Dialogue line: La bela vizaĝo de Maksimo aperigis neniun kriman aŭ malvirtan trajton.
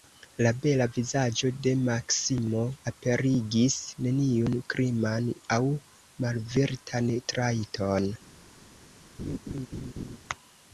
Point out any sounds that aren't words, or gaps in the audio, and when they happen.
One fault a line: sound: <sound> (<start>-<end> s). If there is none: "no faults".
sound: laugh (9.2-10.2 s)